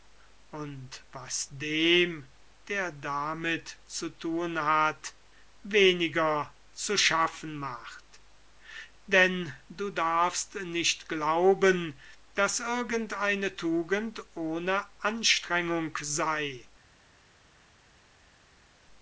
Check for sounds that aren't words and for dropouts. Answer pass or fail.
pass